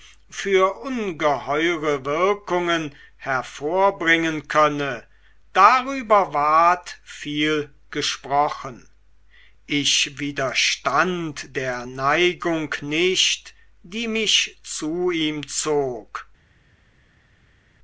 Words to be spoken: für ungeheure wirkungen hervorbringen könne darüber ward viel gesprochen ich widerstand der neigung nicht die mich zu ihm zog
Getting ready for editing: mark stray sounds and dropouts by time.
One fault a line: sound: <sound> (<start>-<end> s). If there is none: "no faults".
no faults